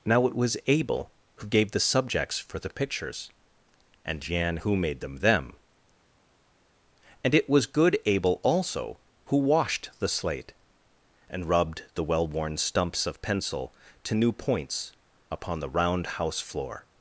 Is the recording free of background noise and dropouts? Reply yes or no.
yes